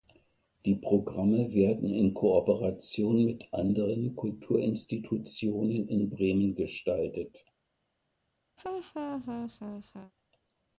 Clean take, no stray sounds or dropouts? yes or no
no